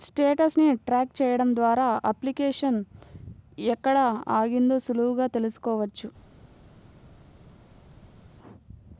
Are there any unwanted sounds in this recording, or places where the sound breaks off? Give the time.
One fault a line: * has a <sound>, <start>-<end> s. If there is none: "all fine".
all fine